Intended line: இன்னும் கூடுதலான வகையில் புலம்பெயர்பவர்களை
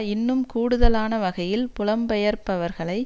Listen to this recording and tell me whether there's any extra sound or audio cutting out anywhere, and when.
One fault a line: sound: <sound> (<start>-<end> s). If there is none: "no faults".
no faults